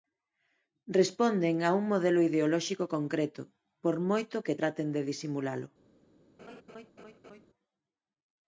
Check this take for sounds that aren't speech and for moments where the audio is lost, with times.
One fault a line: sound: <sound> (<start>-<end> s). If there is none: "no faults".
sound: laugh (6.4-7.5 s)